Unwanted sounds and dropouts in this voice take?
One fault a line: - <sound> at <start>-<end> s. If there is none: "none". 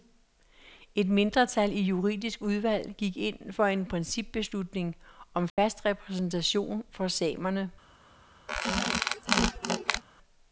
- dropout at 5.5-5.6 s
- squeak at 8.5-10.0 s